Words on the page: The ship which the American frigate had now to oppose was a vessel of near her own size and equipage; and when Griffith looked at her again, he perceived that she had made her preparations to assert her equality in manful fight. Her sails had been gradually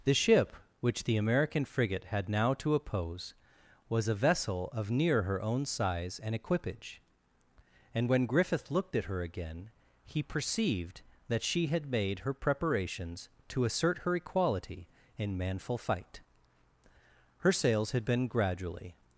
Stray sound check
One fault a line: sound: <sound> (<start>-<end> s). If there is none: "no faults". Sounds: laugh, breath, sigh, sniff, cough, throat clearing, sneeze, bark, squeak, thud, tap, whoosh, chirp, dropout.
no faults